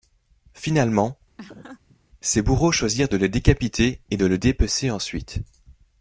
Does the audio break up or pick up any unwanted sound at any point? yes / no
yes